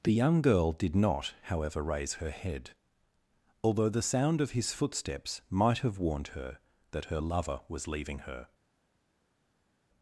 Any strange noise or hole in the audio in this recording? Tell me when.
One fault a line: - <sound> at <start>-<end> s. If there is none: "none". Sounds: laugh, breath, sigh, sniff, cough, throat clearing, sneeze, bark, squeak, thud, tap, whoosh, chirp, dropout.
none